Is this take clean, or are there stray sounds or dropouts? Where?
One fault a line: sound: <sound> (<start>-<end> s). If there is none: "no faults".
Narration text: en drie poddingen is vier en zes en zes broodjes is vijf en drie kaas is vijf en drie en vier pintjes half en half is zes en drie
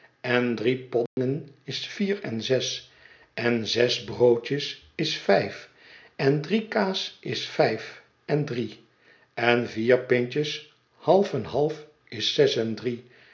sound: dropout (1.1-1.2 s)